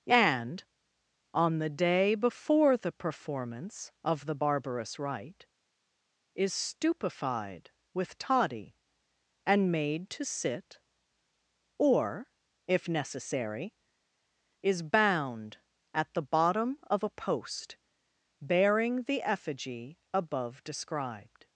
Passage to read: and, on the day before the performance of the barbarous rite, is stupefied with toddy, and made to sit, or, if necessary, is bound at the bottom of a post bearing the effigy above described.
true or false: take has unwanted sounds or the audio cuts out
false